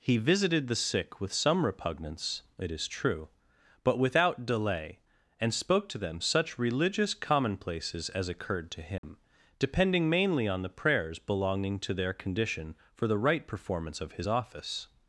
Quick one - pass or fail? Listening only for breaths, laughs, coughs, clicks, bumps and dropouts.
fail